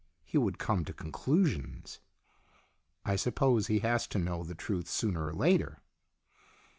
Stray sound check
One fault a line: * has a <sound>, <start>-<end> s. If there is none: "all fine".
all fine